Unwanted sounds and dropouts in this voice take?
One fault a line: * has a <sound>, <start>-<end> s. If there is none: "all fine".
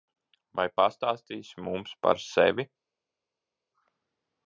all fine